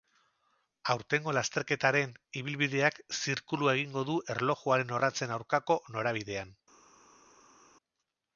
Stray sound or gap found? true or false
false